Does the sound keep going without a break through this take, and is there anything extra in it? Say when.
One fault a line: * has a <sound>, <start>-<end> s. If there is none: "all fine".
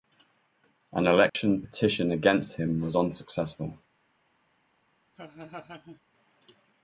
* has a dropout, 1.3-1.4 s
* has a laugh, 5.1-6.0 s